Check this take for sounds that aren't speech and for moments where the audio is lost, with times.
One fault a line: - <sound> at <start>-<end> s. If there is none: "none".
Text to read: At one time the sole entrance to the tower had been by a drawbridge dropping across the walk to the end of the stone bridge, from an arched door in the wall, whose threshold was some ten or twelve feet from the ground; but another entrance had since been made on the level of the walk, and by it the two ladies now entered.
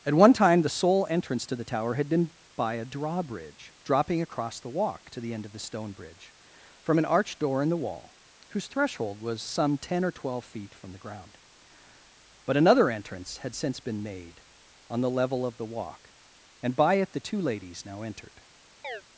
- chirp at 18.8-19.0 s